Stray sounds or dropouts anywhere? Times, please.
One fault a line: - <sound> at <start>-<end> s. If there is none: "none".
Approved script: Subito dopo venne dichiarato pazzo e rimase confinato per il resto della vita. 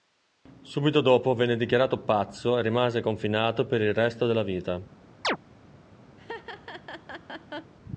- chirp at 5.2-5.4 s
- laugh at 6.2-7.7 s